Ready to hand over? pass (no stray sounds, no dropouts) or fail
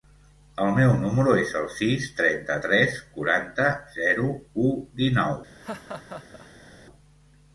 fail